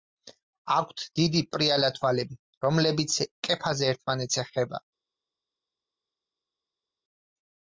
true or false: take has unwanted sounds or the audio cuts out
false